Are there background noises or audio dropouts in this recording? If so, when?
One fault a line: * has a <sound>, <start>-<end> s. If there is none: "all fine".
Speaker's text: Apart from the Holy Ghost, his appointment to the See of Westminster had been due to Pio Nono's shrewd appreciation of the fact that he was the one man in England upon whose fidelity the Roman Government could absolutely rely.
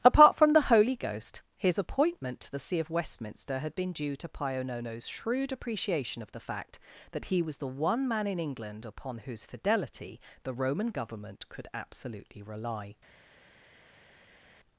all fine